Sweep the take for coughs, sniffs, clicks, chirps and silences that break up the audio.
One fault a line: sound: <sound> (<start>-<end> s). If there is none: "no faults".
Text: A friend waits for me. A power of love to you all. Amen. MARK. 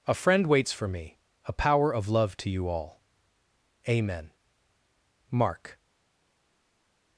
no faults